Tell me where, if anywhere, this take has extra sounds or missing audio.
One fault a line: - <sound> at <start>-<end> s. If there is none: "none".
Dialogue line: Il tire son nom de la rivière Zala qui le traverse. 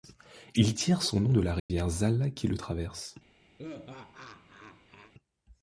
- dropout at 1.6-1.7 s
- laugh at 3.6-5.1 s